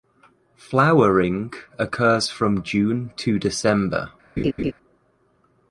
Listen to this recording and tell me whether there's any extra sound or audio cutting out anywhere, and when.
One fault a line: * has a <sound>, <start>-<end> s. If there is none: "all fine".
* has a laugh, 4.4-4.7 s